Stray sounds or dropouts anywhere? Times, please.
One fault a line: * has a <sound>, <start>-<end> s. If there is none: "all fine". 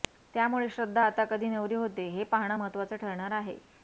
all fine